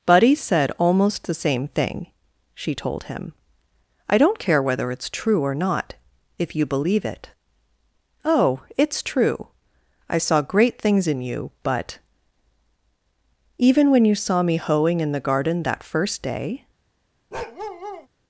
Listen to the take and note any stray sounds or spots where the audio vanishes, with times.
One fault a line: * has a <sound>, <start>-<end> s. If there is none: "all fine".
* has a bark, 17.3-18.1 s